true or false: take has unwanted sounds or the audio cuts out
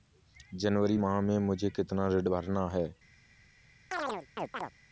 true